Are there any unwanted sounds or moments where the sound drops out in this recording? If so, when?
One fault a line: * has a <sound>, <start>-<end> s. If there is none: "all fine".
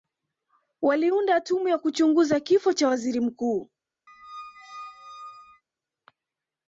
* has a squeak, 4.1-5.6 s